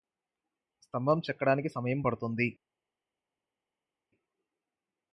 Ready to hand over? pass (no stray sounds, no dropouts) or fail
pass